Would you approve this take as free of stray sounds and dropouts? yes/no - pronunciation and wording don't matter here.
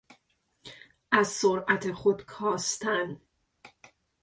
yes